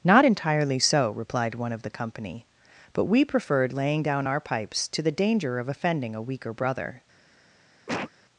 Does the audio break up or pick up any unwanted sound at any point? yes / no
yes